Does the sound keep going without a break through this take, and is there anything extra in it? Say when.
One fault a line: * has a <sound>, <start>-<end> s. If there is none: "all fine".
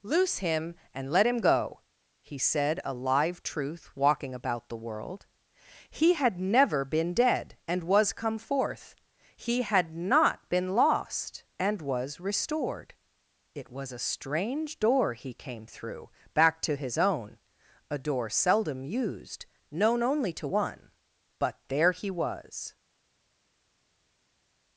all fine